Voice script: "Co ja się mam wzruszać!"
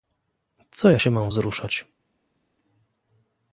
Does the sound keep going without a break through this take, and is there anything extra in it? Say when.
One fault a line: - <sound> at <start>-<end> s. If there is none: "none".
none